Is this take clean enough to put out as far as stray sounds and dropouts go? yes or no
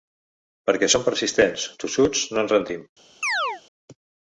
no